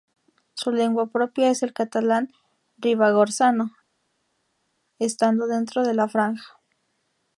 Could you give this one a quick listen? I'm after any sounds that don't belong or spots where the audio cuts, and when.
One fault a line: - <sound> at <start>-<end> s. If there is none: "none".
none